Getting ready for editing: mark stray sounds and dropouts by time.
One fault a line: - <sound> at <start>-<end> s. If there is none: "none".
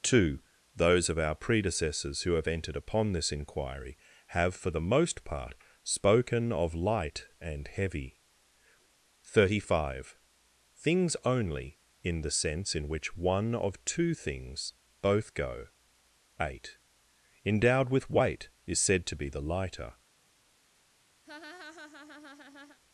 - laugh at 21.3-22.8 s